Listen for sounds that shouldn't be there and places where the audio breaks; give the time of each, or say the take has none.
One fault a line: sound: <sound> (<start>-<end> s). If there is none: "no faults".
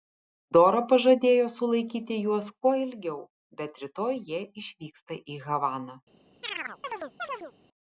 sound: chirp (6.4-7.5 s)